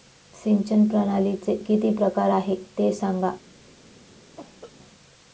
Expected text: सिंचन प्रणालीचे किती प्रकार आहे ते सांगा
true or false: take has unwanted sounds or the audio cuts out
true